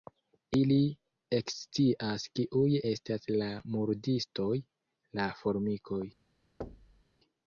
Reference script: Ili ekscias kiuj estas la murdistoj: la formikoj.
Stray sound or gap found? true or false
true